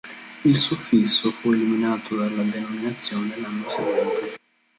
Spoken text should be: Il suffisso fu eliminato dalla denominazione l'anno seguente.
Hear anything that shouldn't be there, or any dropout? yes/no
no